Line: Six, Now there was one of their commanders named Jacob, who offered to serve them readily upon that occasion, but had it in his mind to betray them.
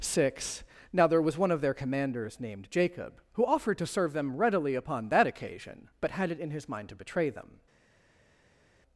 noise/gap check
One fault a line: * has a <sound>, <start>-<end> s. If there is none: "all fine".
all fine